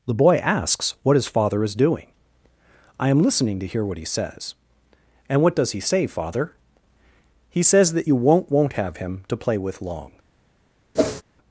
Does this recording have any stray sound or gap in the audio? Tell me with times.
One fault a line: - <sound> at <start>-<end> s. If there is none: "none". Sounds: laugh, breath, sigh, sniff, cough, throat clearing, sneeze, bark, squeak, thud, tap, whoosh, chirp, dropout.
- whoosh at 10.9-11.2 s